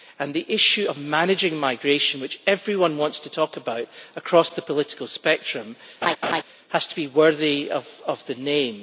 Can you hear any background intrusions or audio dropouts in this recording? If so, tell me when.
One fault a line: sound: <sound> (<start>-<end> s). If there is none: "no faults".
sound: laugh (6.0-6.4 s)